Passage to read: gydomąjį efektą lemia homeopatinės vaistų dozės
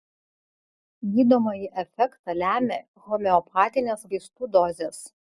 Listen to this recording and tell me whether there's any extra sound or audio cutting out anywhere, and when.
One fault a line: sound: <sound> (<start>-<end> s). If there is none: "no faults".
no faults